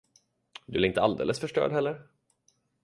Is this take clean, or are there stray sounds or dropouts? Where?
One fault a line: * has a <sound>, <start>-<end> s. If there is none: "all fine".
all fine